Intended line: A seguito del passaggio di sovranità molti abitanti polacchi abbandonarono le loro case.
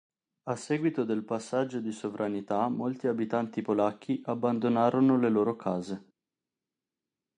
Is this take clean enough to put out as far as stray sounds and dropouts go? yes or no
yes